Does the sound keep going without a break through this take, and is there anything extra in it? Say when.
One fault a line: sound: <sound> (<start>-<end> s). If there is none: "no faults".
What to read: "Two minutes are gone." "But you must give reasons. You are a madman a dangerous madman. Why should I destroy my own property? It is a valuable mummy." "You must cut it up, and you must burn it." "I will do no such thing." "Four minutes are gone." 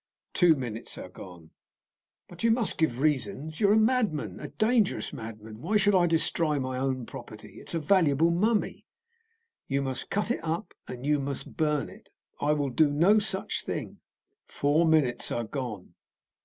no faults